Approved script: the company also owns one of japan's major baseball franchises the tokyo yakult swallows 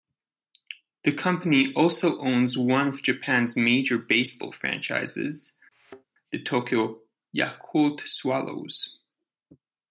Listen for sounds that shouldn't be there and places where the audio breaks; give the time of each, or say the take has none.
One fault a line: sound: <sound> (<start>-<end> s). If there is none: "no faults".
sound: thud (5.7-6.1 s)